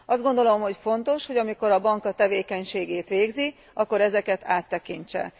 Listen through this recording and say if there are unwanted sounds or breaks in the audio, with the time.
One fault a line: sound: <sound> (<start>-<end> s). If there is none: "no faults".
no faults